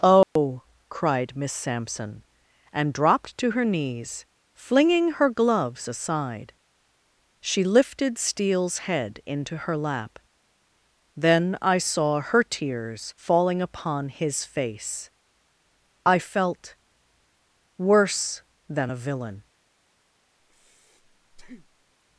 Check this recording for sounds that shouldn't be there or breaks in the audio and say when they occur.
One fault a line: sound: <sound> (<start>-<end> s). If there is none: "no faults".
sound: dropout (0.2-0.4 s)
sound: breath (20.4-21.9 s)